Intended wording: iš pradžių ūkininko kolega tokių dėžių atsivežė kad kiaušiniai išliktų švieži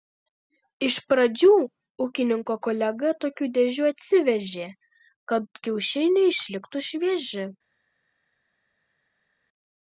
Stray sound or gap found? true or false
false